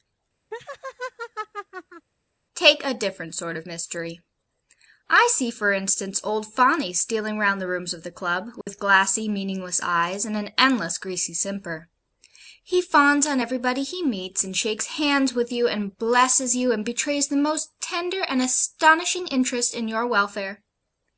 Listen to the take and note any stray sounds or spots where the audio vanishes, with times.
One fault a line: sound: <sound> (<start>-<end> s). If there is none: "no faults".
sound: laugh (0.5-2.1 s)
sound: dropout (8.6-8.7 s)